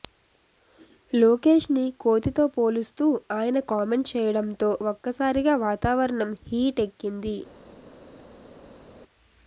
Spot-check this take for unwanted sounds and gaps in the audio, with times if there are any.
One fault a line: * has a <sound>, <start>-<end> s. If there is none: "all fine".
all fine